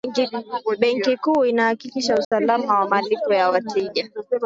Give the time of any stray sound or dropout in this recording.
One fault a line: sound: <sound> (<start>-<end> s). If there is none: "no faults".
sound: dropout (2.2-2.3 s)